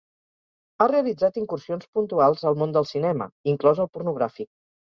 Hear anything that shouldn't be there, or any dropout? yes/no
no